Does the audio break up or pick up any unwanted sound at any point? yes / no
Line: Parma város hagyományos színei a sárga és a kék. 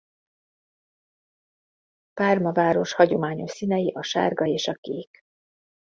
no